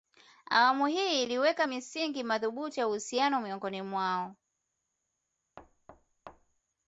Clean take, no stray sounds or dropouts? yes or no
no